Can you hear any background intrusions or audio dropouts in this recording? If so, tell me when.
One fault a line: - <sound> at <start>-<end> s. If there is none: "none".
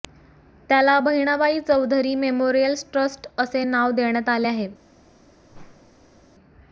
- whoosh at 5.5-6.2 s